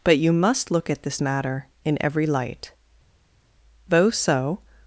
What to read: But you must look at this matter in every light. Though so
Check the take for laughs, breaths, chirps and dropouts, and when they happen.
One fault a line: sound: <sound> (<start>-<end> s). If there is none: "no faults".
no faults